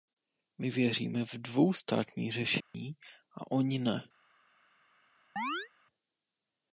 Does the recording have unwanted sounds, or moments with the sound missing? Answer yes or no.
yes